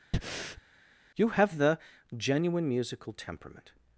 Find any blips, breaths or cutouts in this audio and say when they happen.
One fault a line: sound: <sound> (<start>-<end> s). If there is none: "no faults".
sound: breath (0.1-0.6 s)